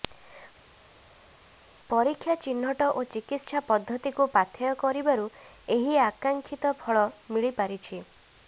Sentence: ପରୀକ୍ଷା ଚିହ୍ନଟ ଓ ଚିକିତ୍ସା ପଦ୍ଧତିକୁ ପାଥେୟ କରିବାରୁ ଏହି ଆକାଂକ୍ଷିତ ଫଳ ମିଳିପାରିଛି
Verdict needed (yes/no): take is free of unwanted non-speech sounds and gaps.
yes